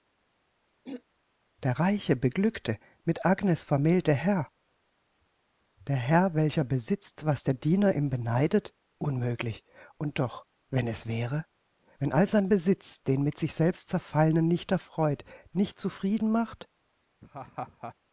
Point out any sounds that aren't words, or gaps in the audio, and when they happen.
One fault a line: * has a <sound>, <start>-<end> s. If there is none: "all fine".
* has a throat clearing, 0.8-1.0 s
* has a laugh, 17.2-17.9 s